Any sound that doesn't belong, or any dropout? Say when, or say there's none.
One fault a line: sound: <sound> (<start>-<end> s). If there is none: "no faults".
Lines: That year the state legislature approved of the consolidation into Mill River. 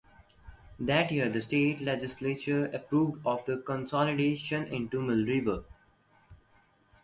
no faults